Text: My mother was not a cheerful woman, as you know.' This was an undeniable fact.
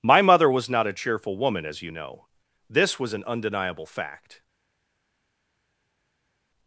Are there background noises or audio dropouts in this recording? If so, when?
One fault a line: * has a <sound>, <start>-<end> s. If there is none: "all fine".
all fine